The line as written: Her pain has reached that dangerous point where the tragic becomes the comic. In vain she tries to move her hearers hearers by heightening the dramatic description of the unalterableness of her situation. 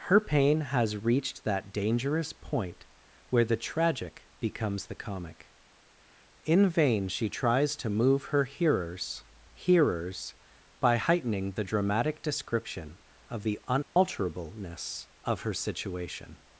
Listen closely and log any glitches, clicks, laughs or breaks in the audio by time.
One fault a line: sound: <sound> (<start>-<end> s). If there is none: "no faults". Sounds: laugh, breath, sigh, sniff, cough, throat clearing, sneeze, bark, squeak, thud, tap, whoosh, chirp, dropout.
sound: dropout (13.8-14.0 s)